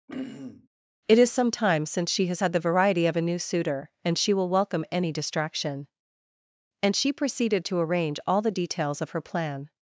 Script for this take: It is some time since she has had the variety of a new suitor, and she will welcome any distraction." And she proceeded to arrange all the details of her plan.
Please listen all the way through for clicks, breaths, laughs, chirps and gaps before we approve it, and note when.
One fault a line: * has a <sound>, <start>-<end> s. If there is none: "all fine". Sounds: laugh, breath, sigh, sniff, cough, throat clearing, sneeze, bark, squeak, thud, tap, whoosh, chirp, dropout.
* has a throat clearing, 0.1-0.7 s